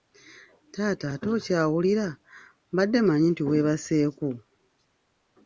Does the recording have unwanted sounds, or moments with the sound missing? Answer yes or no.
no